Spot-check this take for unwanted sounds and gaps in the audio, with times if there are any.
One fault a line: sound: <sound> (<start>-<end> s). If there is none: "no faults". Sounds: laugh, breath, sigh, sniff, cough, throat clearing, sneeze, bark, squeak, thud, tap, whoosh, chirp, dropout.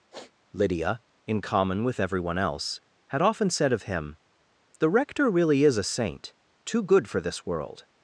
sound: sniff (0.1-0.3 s)